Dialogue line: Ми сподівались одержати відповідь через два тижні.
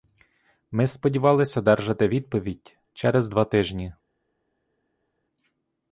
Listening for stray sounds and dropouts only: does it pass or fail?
pass